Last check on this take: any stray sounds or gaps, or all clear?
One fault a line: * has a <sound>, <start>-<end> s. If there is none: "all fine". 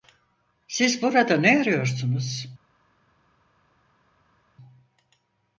all fine